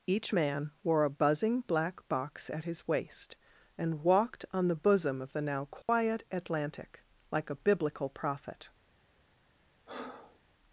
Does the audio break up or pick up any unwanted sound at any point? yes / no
yes